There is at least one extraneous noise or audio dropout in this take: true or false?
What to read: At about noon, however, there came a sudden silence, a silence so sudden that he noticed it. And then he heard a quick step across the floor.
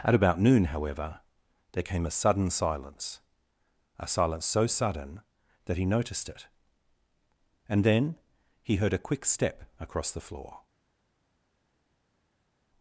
false